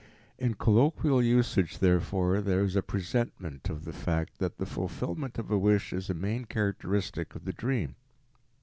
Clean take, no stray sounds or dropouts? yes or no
yes